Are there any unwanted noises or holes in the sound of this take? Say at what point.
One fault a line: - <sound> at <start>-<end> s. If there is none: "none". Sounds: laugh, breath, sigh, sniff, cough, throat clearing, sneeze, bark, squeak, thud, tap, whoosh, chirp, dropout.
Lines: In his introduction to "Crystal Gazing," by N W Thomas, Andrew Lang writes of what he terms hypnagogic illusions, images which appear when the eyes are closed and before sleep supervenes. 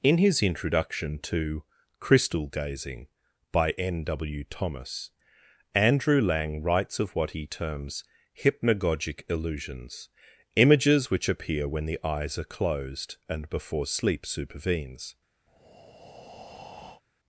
- breath at 15.5-17.0 s